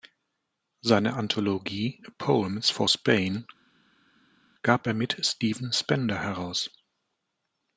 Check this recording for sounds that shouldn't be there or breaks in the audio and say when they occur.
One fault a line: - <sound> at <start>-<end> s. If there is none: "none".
none